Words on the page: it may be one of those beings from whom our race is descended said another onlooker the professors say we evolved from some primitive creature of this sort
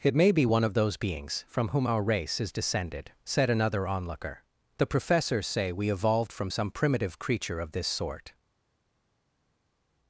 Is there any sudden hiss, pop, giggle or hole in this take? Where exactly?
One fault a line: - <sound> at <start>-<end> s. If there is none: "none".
none